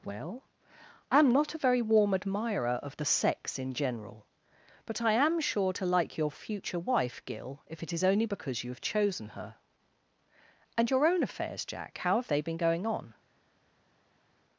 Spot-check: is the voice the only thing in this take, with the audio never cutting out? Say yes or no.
yes